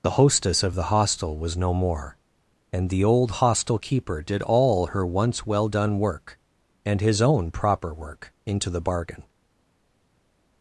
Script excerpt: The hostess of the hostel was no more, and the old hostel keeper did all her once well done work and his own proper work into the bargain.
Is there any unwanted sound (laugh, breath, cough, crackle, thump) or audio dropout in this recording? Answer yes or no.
no